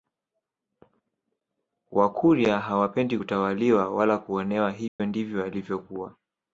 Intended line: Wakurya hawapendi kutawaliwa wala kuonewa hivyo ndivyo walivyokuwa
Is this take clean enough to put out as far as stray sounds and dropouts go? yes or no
no